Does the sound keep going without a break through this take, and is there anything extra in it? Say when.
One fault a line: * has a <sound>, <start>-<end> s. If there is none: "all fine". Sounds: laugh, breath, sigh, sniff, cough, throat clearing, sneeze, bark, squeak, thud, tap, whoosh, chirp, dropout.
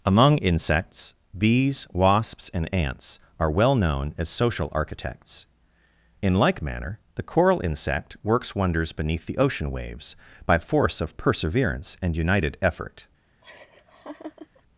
* has a laugh, 13.4-14.6 s